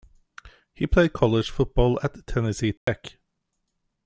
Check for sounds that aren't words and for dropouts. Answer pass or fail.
fail